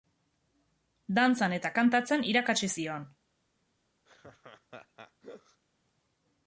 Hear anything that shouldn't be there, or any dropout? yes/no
yes